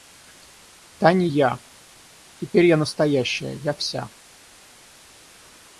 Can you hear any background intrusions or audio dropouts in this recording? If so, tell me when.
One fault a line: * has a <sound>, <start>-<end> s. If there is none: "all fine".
all fine